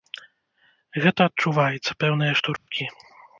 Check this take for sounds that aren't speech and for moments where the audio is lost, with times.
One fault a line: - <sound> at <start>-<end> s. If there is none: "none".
- dropout at 2.6-2.7 s